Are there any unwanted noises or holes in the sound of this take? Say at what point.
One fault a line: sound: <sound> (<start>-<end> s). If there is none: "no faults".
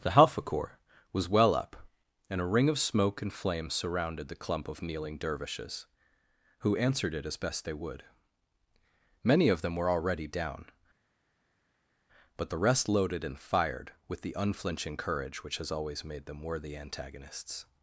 no faults